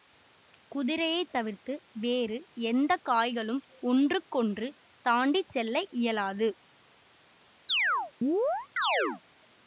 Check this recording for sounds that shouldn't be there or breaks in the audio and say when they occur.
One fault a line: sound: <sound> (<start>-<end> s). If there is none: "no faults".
sound: chirp (7.7-9.2 s)